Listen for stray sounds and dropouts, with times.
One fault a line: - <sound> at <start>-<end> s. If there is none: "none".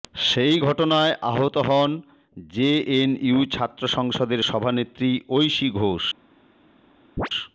- chirp at 7.2-7.3 s